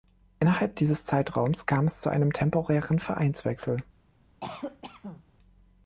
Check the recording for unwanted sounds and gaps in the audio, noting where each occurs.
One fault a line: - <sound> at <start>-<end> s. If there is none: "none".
- cough at 4.4-5.2 s